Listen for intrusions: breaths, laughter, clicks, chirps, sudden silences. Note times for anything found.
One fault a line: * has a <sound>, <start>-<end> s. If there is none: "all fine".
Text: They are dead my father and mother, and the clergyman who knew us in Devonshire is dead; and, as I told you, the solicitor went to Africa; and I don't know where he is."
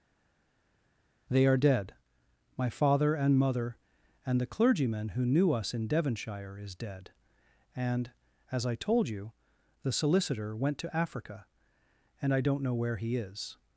all fine